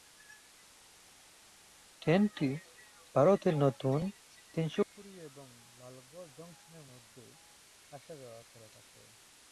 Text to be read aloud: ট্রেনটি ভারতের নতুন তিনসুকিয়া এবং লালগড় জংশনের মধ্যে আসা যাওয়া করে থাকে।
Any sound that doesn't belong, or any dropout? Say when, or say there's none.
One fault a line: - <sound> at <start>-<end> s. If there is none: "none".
none